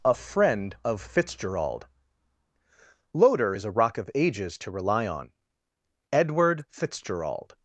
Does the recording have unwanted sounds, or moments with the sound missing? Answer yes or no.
no